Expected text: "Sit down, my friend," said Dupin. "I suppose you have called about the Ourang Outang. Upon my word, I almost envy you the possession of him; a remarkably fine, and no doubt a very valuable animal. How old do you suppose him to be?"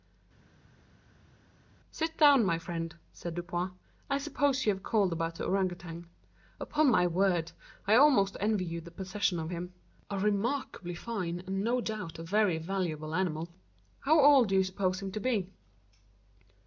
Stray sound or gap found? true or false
false